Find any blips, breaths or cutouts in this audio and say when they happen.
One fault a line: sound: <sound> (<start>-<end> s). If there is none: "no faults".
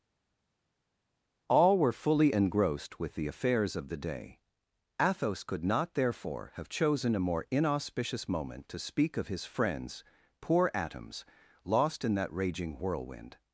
no faults